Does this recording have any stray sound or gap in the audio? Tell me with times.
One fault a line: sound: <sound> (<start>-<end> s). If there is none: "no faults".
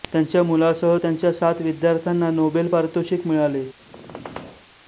sound: squeak (3.8-4.7 s)